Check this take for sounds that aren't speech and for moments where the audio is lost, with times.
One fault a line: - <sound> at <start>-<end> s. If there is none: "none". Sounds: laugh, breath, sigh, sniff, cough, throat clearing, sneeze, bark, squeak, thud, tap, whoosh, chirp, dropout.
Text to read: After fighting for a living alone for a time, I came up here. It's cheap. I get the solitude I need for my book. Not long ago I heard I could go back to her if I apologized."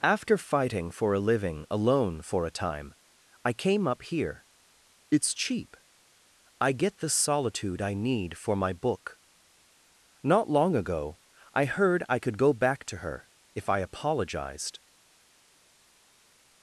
none